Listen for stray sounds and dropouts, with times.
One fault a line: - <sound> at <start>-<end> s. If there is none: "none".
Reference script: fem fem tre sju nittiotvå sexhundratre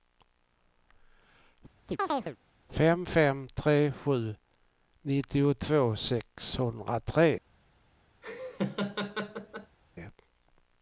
- chirp at 1.9-2.4 s
- laugh at 8.2-9.8 s